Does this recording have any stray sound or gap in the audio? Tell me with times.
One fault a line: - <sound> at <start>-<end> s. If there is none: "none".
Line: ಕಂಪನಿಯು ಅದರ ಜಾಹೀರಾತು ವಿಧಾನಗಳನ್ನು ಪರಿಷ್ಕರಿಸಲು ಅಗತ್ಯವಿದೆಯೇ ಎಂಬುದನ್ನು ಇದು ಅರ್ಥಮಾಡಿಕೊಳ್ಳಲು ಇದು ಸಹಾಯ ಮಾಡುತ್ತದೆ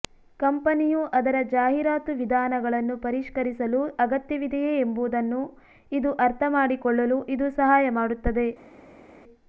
none